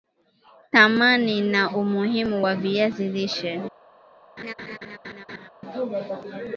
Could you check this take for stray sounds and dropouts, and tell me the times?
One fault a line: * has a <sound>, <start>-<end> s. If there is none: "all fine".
* has a laugh, 4.4-5.5 s